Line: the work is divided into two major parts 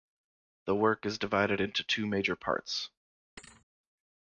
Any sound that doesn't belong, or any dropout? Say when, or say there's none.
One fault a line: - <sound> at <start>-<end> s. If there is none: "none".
- thud at 3.4-3.7 s